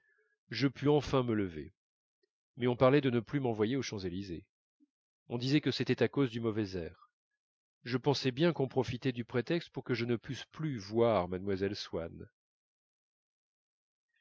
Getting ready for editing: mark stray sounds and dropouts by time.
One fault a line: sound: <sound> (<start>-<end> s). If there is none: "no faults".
no faults